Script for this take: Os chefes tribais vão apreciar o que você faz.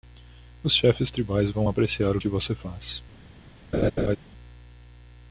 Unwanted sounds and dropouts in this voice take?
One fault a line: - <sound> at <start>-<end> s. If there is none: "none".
- laugh at 3.7-4.2 s